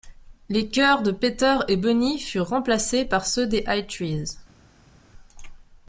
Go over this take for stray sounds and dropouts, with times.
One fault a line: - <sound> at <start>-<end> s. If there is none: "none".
none